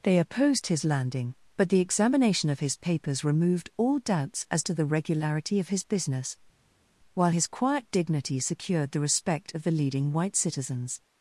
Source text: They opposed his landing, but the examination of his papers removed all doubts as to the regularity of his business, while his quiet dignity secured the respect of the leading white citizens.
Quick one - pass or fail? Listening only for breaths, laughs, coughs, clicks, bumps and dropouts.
pass